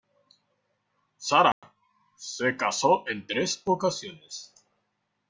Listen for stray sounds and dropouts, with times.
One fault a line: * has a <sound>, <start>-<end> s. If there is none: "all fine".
* has a dropout, 1.5-1.6 s